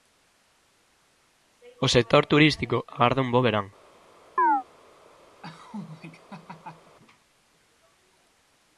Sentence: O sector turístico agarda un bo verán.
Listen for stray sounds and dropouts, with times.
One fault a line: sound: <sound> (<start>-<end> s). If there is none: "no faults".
sound: chirp (4.4-4.6 s)
sound: laugh (5.4-7.0 s)